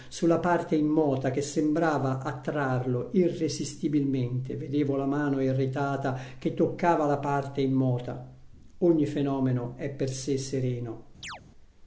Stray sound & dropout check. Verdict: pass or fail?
fail